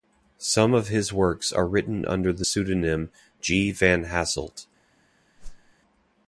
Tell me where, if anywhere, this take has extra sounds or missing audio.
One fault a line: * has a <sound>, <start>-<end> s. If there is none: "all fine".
* has a whoosh, 5.4-5.7 s